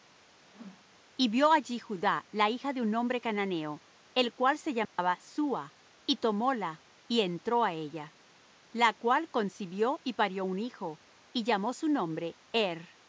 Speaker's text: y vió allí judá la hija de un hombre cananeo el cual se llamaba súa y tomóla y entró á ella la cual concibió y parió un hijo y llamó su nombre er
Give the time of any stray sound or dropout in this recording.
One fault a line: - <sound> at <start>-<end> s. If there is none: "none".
- whoosh at 0.4-1.0 s
- dropout at 4.8-5.0 s